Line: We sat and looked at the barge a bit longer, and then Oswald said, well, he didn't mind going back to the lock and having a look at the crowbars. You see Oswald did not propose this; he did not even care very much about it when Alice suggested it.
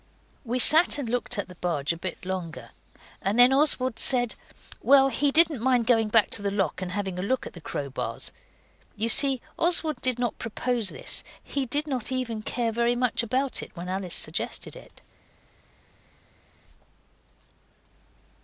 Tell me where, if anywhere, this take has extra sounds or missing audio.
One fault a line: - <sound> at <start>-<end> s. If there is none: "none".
none